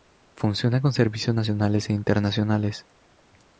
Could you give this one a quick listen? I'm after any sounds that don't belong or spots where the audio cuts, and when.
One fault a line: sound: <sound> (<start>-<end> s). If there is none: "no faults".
no faults